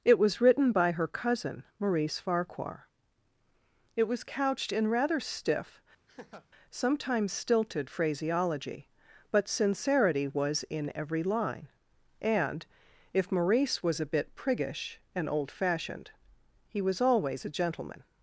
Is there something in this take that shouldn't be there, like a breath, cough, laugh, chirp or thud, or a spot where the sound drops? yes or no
yes